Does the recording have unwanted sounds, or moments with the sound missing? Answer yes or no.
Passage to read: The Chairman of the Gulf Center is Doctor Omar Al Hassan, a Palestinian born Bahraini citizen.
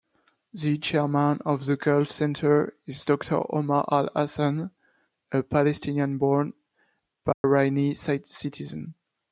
yes